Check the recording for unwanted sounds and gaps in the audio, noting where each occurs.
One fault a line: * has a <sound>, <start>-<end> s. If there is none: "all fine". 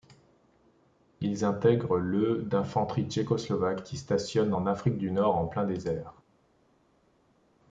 all fine